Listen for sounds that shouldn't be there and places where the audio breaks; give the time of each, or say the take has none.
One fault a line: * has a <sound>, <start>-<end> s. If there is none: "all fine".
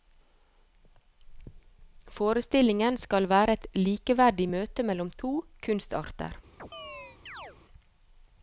* has a chirp, 6.6-7.6 s